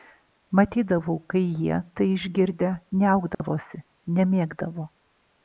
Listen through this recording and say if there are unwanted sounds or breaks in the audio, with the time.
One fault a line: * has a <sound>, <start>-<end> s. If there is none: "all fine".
* has a dropout, 3.3-3.4 s